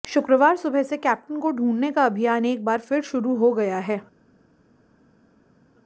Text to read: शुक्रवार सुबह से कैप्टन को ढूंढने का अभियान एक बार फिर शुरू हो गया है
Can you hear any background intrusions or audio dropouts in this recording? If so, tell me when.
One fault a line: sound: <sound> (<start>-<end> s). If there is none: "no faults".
no faults